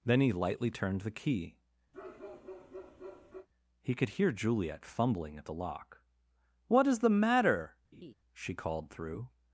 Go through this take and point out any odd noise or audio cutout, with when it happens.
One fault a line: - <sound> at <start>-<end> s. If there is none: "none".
- bark at 1.9-3.5 s
- laugh at 7.9-8.1 s